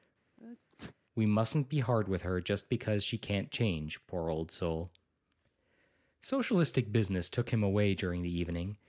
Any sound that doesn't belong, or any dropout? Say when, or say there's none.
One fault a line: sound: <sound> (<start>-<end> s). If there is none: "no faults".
sound: sneeze (0.4-1.0 s)